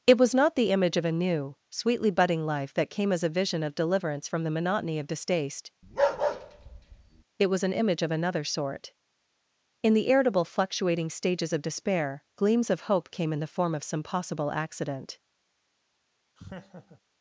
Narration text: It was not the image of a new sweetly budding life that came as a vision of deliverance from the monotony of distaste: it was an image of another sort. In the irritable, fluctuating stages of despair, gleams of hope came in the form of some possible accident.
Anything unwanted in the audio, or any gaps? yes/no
yes